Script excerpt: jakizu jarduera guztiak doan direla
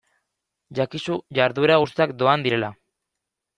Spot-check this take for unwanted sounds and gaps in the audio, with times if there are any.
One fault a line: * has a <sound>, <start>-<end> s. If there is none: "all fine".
all fine